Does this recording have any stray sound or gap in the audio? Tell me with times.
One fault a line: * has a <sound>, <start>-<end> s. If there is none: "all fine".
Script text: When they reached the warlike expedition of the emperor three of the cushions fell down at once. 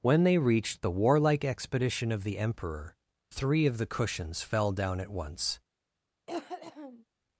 * has a cough, 6.3-7.0 s